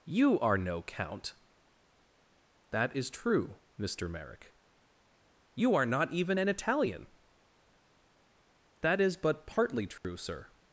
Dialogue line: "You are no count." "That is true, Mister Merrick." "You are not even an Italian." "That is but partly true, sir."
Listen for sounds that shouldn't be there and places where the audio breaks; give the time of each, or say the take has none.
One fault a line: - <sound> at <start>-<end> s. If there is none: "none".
- dropout at 10.0-10.0 s